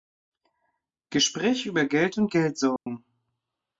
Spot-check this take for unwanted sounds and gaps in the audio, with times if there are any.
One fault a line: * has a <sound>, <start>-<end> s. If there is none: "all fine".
* has a dropout, 2.8-2.9 s